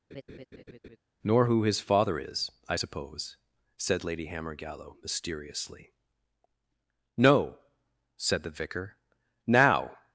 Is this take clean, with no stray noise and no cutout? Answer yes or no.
no